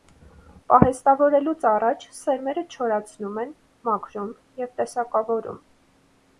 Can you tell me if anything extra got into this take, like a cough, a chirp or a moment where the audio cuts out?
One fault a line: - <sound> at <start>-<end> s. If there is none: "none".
none